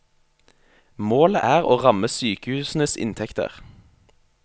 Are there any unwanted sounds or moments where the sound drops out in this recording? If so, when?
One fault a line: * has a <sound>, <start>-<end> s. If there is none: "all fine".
all fine